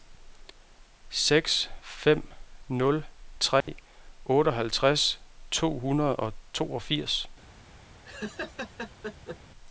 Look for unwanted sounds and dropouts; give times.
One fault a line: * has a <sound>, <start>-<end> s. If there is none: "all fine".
* has a dropout, 3.6-3.7 s
* has a laugh, 8.0-9.4 s